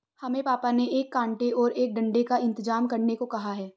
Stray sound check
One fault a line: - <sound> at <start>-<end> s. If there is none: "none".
none